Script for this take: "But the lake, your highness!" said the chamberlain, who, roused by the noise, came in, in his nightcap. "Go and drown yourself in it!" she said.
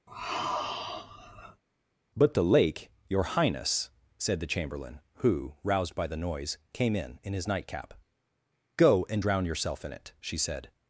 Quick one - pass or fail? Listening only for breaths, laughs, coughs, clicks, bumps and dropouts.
fail